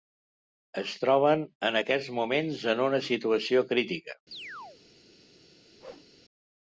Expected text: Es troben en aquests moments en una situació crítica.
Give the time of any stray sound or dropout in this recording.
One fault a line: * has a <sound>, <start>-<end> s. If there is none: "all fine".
* has a chirp, 4.3-4.8 s
* has a whoosh, 5.8-6.1 s